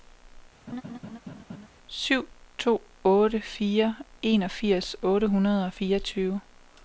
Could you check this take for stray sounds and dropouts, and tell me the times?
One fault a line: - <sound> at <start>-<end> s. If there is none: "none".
- laugh at 0.7-1.7 s